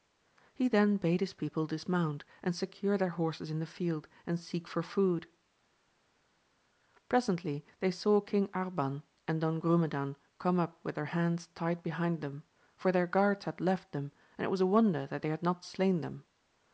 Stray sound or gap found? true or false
false